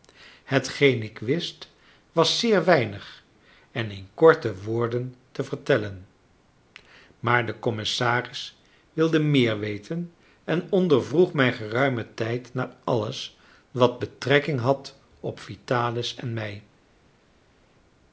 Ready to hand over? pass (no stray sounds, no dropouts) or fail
pass